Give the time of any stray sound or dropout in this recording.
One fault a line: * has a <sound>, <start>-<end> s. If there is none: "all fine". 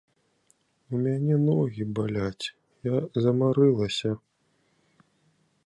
all fine